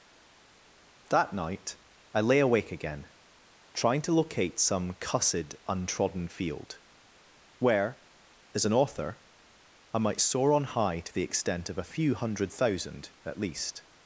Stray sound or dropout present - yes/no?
no